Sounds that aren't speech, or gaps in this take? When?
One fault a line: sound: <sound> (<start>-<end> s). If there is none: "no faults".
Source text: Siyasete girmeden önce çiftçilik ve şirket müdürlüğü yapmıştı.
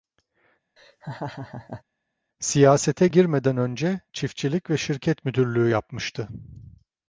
sound: laugh (0.8-1.8 s)